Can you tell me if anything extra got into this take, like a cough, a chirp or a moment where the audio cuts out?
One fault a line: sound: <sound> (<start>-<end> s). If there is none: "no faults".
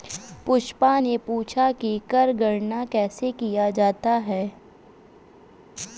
no faults